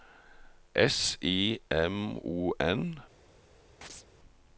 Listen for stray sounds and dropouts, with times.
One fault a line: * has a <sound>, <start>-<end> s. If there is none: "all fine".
* has a chirp, 3.8-4.1 s